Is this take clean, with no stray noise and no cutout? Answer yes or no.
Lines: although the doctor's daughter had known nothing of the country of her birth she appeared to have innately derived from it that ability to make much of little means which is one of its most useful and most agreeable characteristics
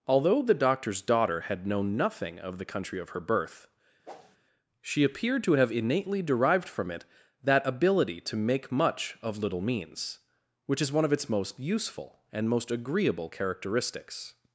no